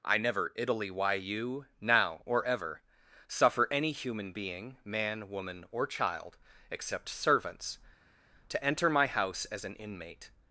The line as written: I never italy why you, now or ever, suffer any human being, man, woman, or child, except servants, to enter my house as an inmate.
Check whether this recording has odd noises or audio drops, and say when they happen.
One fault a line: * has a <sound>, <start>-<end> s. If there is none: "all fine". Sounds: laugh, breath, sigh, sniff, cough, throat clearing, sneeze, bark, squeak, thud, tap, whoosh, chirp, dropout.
all fine